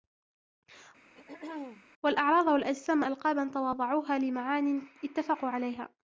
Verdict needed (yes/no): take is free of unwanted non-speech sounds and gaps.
no